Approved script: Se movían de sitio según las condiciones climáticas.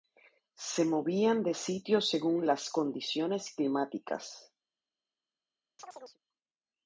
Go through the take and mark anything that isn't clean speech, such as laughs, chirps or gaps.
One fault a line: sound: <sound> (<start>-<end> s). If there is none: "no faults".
sound: chirp (5.8-6.2 s)